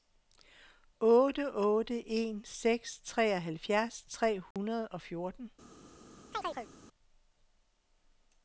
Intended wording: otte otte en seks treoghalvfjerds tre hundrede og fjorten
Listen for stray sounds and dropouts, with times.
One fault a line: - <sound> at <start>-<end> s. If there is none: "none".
- dropout at 4.5-4.6 s
- chirp at 6.3-6.7 s